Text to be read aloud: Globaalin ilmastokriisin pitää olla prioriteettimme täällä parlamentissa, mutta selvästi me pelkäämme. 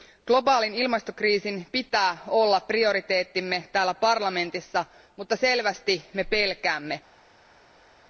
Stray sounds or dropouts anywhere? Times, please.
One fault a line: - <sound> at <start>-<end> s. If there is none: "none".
none